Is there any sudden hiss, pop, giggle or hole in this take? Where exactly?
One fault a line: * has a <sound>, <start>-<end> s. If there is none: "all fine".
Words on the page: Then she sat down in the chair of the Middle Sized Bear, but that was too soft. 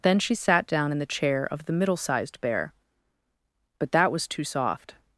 all fine